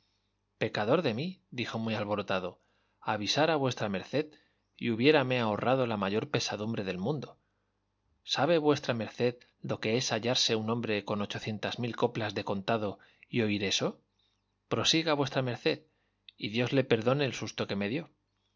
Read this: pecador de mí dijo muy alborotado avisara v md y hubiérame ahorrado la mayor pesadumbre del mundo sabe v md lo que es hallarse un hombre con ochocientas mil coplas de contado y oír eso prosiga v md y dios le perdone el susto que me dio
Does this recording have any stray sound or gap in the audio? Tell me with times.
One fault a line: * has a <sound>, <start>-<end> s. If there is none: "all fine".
all fine